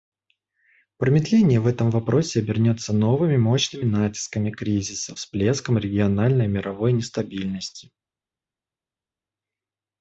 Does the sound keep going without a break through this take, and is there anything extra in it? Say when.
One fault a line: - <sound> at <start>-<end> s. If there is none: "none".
none